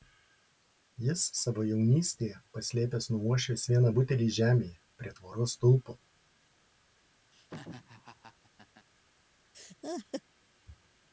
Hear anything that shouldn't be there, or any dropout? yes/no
yes